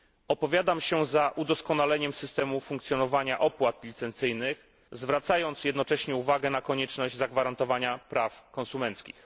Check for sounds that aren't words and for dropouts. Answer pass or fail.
pass